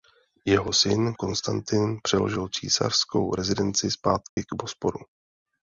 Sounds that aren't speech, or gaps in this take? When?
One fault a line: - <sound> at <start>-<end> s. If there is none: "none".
- dropout at 4.3-4.4 s